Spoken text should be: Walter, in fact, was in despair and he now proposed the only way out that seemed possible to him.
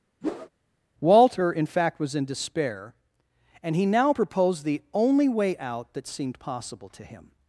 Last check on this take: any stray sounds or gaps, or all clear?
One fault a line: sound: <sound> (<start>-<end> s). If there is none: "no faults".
sound: whoosh (0.2-0.5 s)